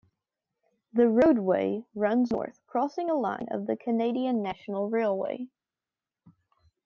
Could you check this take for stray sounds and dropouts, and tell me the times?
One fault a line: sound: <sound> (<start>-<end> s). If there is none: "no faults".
no faults